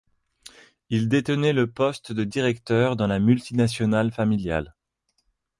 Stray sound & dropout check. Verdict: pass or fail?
pass